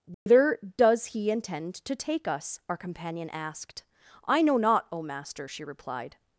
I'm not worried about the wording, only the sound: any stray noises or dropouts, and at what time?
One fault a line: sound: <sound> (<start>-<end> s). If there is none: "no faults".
sound: dropout (0.1-0.3 s)